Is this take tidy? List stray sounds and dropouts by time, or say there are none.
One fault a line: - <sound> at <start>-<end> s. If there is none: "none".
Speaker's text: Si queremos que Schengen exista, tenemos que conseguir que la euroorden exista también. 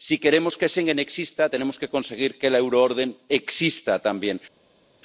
none